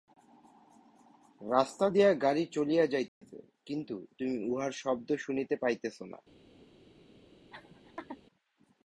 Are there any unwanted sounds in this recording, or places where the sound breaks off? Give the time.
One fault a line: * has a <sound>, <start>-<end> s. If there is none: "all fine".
* has a dropout, 3.1-3.2 s
* has a laugh, 7.5-8.2 s